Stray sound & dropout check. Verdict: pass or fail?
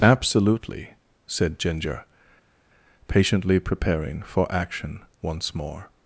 pass